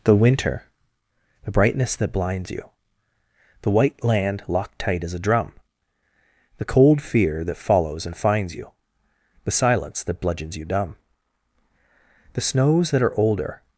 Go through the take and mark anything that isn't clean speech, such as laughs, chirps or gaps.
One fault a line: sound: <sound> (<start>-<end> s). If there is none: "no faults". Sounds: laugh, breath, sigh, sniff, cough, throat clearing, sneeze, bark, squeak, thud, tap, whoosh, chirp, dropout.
no faults